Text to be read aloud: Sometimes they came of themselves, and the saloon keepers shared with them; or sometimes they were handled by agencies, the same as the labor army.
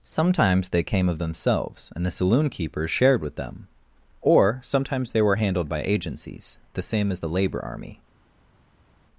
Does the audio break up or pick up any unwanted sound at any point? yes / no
no